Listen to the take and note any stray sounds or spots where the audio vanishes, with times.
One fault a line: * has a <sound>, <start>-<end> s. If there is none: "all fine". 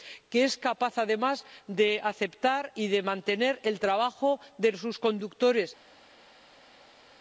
all fine